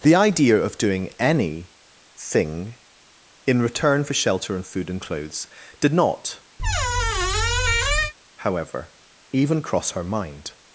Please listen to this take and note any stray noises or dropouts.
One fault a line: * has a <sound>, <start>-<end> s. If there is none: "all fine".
* has a squeak, 6.6-8.1 s